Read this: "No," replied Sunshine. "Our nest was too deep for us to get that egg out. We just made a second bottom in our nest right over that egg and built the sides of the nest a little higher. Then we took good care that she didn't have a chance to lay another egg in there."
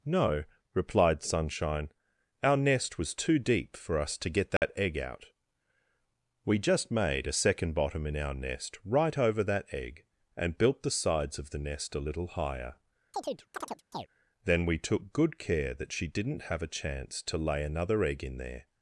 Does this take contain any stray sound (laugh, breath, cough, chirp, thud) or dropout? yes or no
yes